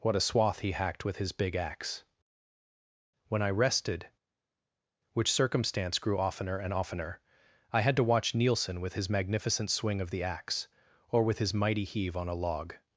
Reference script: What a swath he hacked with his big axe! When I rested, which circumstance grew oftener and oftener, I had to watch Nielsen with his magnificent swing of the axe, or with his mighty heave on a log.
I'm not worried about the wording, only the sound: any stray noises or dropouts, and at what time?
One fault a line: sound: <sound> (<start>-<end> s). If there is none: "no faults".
no faults